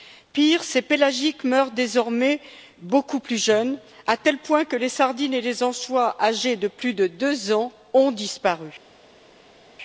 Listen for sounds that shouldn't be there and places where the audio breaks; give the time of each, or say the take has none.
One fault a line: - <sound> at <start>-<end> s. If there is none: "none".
none